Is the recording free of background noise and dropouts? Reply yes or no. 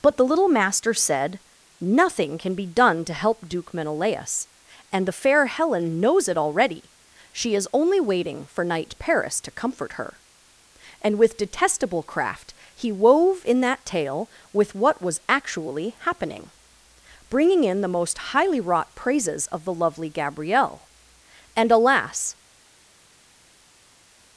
yes